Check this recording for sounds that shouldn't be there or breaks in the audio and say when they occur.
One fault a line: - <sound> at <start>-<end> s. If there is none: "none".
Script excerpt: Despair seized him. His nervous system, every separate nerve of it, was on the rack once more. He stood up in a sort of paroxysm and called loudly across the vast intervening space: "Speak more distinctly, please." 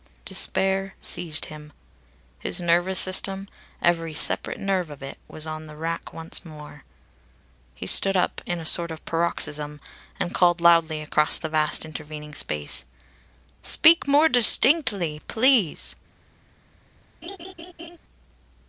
- laugh at 17.2-18.0 s